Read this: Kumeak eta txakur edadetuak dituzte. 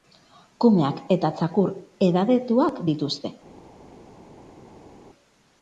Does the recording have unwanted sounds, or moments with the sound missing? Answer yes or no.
no